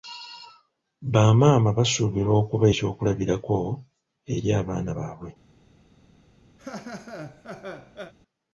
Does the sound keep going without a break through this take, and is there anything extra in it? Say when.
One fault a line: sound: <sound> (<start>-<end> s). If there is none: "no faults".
sound: laugh (6.6-8.1 s)